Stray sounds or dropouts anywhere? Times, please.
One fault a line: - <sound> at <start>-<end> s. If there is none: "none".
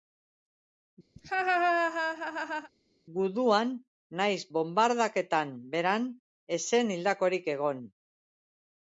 - laugh at 1.2-2.7 s